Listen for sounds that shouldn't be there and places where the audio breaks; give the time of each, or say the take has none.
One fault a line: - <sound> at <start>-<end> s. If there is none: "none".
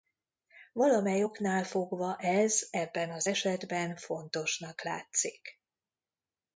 none